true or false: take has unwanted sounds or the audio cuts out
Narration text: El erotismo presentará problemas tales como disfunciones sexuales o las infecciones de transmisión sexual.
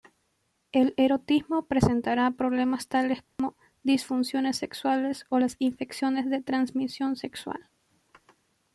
true